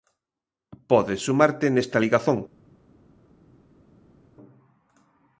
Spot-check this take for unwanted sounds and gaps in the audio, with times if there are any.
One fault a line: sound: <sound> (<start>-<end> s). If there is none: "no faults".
no faults